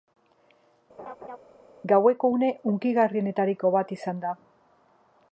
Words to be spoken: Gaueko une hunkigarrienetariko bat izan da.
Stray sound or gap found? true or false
true